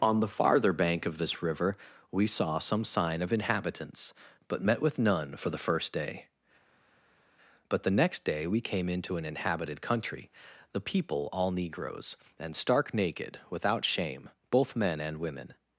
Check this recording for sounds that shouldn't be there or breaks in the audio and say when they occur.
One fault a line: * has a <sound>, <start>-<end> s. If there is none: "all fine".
all fine